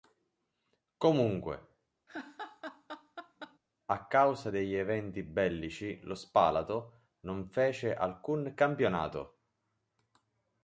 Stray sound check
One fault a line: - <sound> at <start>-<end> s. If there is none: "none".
- laugh at 2.1-3.6 s